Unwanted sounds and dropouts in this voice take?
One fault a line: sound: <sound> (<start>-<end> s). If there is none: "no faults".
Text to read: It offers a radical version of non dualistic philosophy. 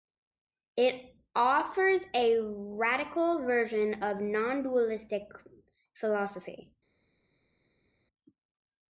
no faults